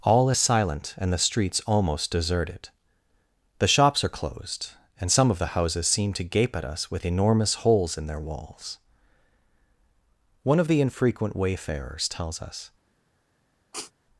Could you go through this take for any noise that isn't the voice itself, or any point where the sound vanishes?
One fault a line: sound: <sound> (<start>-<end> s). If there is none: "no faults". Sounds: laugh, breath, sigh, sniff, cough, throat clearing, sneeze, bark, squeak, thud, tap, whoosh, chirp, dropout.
sound: sniff (13.7-13.9 s)